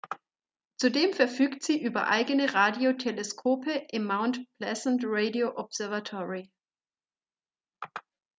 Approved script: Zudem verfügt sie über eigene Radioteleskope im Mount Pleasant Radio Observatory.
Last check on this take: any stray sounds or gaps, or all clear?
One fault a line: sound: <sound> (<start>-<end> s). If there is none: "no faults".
no faults